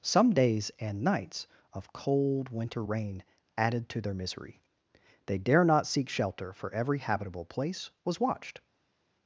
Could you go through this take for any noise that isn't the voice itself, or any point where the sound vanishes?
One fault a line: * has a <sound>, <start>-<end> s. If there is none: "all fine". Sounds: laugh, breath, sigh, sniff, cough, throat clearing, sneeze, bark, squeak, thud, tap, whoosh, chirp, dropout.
all fine